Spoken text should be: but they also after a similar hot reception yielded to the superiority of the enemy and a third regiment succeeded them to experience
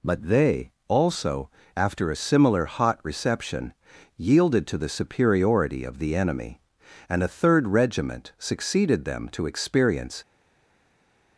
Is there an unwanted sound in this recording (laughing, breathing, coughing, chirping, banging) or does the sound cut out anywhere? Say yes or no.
no